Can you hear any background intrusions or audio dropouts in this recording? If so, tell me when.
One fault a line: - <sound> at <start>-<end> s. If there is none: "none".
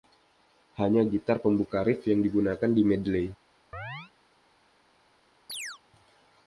- chirp at 3.7-4.1 s
- chirp at 5.5-5.8 s